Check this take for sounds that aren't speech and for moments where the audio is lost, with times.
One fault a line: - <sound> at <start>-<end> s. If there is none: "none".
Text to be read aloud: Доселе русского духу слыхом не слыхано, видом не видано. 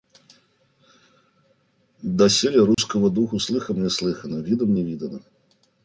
- dropout at 2.7-2.8 s